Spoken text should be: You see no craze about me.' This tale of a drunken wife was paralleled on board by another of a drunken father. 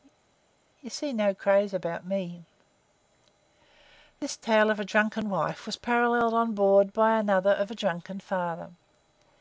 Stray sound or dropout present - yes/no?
no